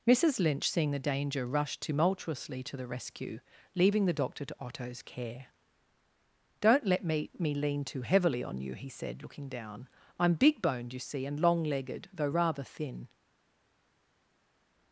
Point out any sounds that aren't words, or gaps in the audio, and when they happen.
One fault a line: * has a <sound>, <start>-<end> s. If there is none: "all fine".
all fine